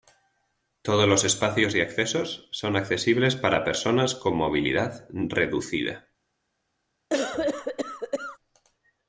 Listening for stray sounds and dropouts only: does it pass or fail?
fail